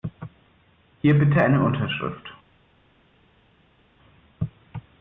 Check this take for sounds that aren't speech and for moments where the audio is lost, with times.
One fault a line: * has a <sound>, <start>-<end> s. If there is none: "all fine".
all fine